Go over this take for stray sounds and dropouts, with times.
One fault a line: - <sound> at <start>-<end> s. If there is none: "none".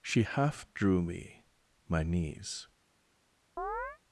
- chirp at 3.6-4.0 s